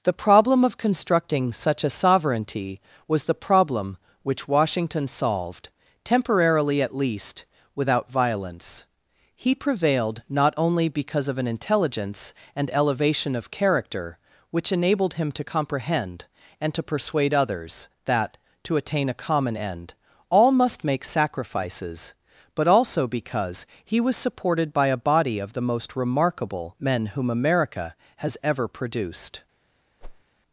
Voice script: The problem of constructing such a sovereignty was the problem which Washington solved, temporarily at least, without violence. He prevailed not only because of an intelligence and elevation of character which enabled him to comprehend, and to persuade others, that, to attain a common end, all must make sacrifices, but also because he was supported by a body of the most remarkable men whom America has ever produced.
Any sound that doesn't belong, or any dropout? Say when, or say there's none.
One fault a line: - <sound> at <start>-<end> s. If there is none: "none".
- whoosh at 30.0-30.2 s